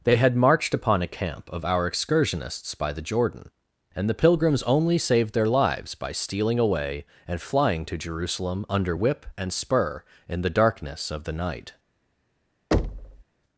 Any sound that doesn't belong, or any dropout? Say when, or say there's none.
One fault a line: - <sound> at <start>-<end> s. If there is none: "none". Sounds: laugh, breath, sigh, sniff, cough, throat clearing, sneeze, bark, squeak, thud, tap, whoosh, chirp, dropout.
- thud at 12.7-13.2 s